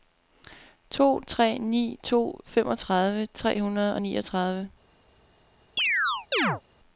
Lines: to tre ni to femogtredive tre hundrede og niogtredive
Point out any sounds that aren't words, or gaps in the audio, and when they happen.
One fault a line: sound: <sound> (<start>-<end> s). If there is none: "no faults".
sound: chirp (5.8-6.6 s)